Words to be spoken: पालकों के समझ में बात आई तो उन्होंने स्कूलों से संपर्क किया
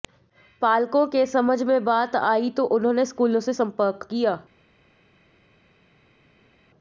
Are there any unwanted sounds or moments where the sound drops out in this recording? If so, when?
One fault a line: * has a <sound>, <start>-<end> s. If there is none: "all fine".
all fine